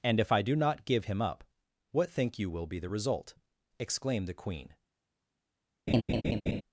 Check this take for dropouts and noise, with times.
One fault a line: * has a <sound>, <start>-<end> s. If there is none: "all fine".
* has a laugh, 5.9-6.6 s